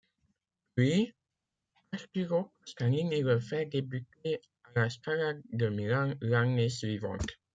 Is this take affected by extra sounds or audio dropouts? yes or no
no